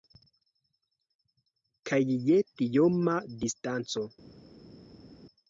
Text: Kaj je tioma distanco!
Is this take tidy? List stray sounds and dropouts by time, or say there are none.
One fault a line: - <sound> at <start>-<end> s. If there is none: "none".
none